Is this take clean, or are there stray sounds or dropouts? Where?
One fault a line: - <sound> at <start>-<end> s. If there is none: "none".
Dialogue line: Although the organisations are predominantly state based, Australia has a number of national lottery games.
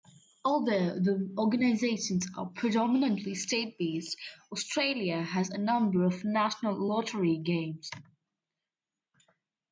none